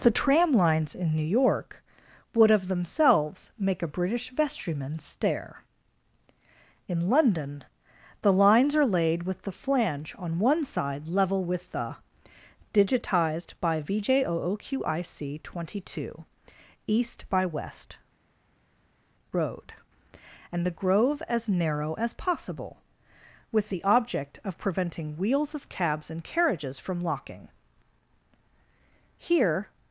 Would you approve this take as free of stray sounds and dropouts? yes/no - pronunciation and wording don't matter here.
yes